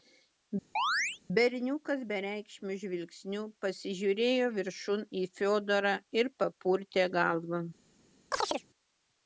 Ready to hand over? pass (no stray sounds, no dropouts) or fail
fail